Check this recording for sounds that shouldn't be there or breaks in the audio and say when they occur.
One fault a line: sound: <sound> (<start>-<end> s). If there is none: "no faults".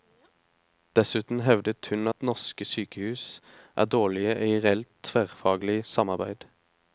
no faults